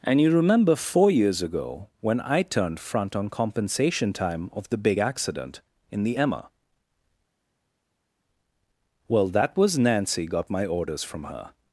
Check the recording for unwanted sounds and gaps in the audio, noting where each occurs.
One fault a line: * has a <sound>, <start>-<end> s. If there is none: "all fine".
all fine